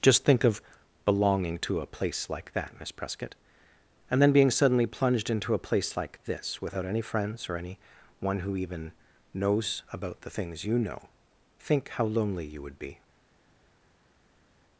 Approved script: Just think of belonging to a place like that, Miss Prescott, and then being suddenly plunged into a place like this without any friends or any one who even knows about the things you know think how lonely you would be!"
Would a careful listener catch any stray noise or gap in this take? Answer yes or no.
no